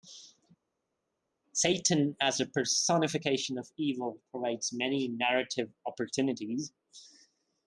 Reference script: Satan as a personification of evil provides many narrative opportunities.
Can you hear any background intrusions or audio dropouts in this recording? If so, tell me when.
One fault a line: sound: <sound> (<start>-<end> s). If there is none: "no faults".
no faults